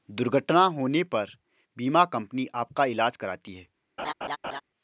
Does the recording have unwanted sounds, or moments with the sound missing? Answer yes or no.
yes